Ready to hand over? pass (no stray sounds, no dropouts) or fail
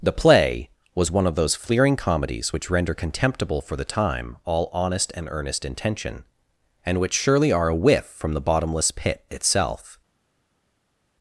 pass